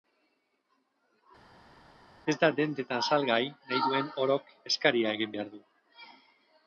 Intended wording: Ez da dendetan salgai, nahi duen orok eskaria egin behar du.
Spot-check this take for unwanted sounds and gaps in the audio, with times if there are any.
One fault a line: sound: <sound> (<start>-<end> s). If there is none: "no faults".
no faults